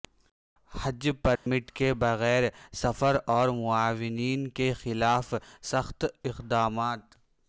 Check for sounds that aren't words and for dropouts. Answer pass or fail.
fail